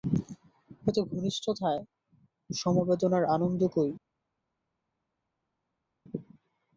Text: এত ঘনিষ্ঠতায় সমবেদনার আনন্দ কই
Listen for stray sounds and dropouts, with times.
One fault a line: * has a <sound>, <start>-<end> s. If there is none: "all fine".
all fine